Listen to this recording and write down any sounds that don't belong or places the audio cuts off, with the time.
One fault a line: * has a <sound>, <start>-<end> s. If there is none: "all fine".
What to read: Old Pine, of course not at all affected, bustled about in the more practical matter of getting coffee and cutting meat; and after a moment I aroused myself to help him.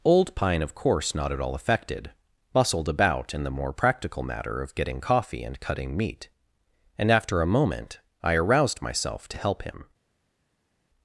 all fine